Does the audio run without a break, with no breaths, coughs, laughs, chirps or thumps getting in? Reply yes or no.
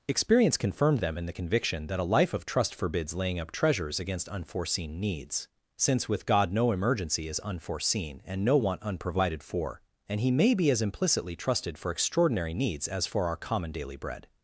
yes